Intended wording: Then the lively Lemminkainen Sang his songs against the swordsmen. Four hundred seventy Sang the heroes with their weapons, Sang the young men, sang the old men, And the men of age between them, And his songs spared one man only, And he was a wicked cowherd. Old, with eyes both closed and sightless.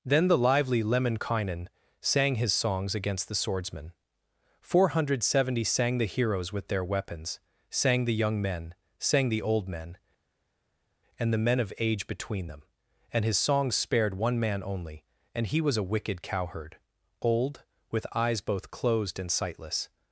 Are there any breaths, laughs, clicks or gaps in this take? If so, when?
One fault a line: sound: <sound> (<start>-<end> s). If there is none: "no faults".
no faults